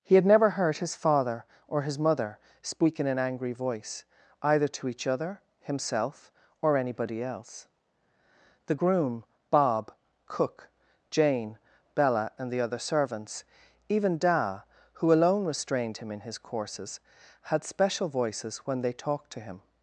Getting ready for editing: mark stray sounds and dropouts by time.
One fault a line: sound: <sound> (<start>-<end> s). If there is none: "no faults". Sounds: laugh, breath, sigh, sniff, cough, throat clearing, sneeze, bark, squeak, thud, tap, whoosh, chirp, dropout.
no faults